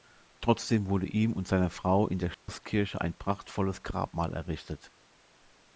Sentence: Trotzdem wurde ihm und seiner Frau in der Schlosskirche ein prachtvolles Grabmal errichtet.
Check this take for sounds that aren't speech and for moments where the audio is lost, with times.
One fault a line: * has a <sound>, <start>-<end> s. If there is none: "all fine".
* has a dropout, 2.3-2.5 s